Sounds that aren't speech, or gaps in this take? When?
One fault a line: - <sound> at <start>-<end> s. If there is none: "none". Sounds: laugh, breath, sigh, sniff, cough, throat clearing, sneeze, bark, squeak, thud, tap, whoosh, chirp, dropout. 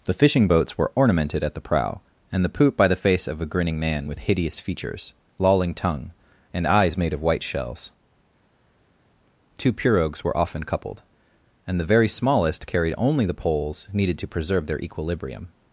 none